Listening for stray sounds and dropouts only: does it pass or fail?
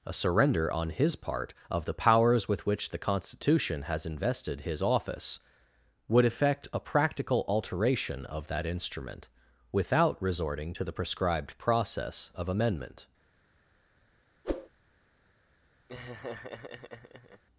fail